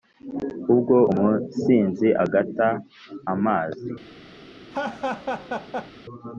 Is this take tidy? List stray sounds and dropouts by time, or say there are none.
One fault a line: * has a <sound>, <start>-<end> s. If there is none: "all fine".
* has a laugh, 4.7-5.9 s